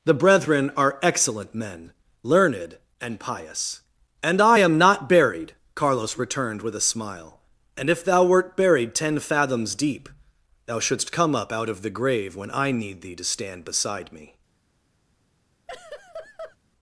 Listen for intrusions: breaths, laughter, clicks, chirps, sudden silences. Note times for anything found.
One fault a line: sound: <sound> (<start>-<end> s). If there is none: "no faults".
sound: laugh (15.7-16.6 s)